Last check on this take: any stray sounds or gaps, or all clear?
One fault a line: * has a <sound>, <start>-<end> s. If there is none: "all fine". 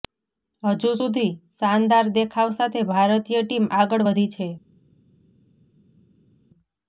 all fine